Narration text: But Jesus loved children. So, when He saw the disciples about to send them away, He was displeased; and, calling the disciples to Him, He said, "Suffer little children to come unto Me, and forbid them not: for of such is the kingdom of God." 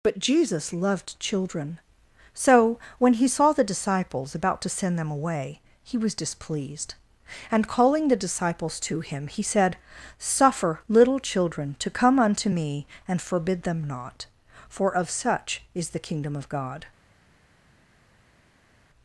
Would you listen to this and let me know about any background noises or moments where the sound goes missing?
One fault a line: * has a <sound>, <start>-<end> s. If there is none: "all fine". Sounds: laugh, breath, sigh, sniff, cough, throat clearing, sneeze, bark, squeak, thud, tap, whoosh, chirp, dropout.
all fine